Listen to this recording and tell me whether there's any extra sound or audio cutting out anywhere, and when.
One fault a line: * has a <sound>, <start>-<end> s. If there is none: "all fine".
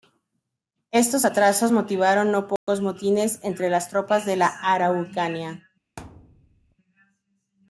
* has a dropout, 2.6-2.7 s
* has a thud, 6.0-6.8 s